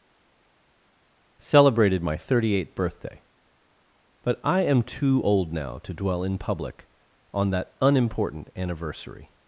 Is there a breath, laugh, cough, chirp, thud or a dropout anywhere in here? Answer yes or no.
no